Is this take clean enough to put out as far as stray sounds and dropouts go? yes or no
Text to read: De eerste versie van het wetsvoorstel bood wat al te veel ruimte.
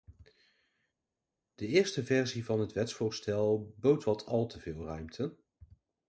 yes